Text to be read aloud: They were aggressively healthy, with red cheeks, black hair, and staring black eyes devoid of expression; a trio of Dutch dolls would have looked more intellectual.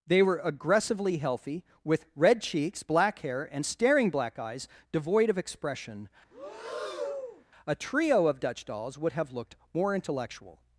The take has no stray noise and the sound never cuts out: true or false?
false